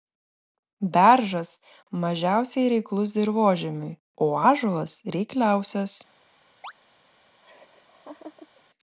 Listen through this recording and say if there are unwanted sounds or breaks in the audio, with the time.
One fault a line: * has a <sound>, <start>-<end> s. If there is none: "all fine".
* has a chirp, 6.6-6.7 s
* has a laugh, 7.4-8.6 s